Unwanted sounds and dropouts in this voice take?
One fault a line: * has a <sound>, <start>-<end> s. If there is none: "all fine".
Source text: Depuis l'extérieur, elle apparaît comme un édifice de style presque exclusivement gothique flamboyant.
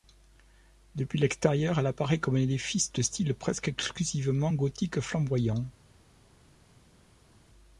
all fine